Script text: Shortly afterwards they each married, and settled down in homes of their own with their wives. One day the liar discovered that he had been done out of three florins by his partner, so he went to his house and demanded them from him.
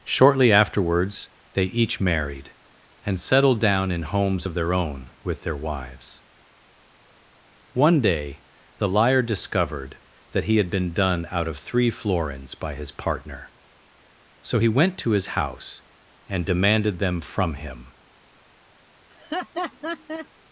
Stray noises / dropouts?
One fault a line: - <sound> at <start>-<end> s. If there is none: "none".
- laugh at 19.1-20.3 s